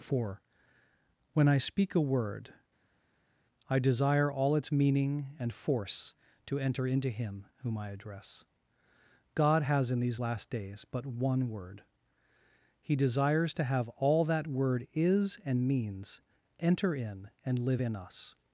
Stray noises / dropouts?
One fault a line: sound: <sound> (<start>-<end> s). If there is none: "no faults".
no faults